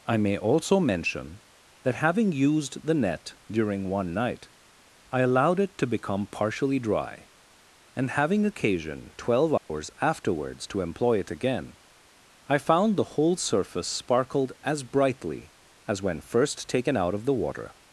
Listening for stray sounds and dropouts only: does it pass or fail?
fail